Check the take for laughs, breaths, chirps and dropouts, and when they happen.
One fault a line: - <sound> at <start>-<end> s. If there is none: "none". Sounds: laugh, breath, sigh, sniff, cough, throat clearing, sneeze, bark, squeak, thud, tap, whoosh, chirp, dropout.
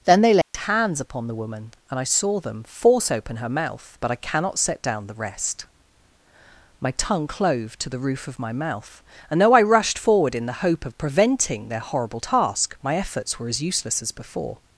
- dropout at 0.4-0.5 s